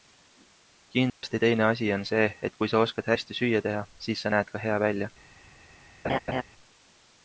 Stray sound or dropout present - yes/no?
yes